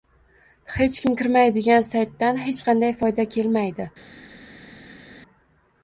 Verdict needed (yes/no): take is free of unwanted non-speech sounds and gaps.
yes